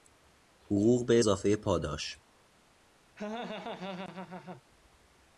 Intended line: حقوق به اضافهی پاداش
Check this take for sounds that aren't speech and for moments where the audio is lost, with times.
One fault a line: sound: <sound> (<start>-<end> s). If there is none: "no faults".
sound: laugh (3.2-4.6 s)